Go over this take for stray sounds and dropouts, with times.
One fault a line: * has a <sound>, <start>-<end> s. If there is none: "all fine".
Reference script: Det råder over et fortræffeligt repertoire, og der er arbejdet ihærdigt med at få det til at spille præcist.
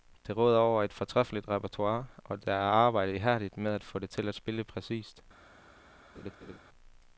* has a laugh, 6.1-6.6 s